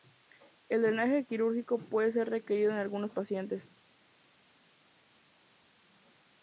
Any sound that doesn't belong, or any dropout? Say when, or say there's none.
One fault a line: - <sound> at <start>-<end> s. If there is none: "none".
none